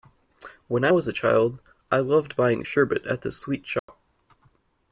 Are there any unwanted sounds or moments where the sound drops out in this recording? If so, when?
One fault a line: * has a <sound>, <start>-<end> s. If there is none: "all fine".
* has a dropout, 3.8-3.9 s